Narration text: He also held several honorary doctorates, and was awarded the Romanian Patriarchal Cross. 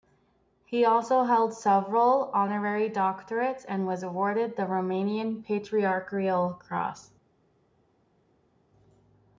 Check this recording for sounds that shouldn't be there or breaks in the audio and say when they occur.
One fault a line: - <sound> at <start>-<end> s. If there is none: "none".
none